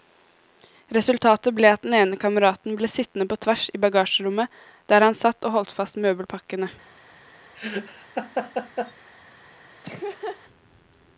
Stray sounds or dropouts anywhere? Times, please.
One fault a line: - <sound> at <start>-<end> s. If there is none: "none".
- laugh at 7.6-8.9 s
- laugh at 9.8-10.4 s